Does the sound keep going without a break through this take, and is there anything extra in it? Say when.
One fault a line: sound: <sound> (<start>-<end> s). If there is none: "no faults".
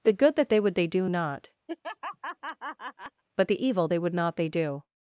sound: laugh (1.7-3.2 s)